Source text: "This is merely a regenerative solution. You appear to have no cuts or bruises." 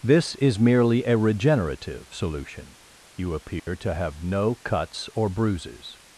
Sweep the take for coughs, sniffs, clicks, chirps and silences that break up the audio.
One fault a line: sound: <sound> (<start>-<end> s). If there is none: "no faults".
sound: dropout (3.6-3.7 s)